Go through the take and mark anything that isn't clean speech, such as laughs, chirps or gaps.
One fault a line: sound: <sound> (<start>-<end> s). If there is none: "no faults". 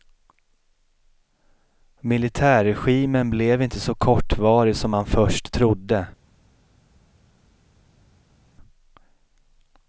no faults